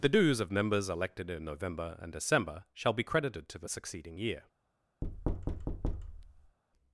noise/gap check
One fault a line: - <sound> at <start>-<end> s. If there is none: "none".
- thud at 5.0-6.6 s